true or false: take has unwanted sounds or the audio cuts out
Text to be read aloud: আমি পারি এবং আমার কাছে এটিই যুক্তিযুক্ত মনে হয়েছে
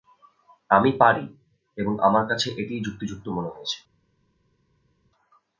false